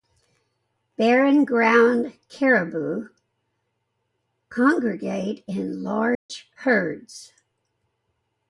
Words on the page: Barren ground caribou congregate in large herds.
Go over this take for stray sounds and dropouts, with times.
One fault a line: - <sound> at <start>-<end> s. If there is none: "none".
- dropout at 6.1-6.3 s